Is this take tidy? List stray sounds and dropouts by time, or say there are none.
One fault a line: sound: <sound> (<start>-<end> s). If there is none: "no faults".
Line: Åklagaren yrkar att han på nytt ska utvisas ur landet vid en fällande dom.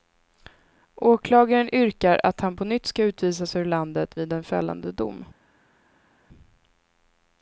no faults